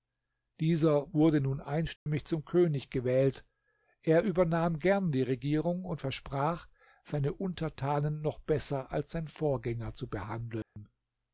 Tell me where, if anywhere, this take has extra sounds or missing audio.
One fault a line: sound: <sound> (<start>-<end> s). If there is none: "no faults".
sound: dropout (2.0-2.1 s)
sound: dropout (10.6-10.8 s)